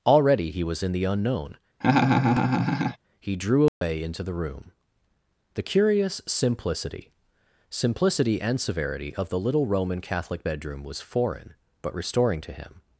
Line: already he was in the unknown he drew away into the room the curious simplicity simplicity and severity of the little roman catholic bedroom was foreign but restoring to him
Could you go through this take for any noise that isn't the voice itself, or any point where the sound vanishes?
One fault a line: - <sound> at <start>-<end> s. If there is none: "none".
- laugh at 1.8-3.0 s
- dropout at 3.7-3.8 s